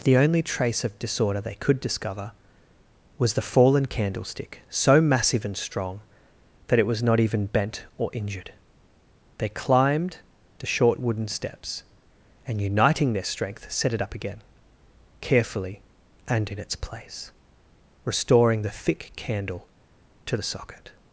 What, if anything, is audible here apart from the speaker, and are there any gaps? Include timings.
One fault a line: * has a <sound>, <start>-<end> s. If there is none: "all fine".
all fine